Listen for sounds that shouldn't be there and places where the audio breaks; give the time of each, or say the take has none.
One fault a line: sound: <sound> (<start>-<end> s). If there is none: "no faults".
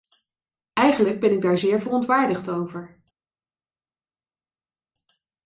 no faults